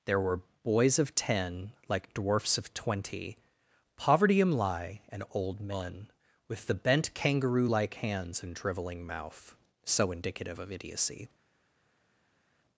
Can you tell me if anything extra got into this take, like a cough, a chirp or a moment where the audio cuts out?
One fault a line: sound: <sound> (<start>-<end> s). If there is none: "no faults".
no faults